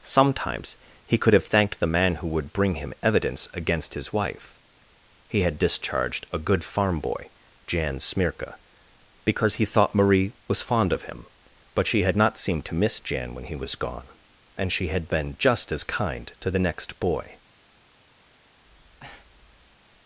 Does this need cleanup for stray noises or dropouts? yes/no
yes